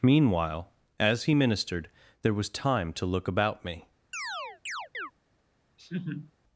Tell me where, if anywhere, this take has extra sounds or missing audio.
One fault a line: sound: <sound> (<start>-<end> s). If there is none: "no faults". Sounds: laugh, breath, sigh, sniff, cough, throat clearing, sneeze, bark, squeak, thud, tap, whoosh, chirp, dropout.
sound: chirp (4.1-5.1 s)
sound: laugh (5.8-6.3 s)